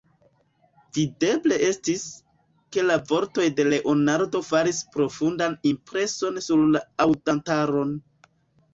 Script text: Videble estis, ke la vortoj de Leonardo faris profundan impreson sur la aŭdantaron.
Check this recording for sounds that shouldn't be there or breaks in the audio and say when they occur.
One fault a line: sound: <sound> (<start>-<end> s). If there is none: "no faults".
no faults